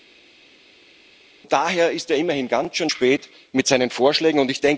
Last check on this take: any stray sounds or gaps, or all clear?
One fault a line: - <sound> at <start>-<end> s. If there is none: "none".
none